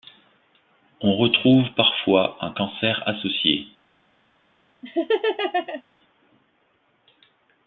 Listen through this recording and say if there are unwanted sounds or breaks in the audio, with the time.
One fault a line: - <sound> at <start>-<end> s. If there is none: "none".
- laugh at 4.8-5.8 s